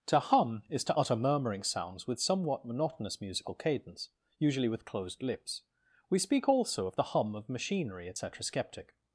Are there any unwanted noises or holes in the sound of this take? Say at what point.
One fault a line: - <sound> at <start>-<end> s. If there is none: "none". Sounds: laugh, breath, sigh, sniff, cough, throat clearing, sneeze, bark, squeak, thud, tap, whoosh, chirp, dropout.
none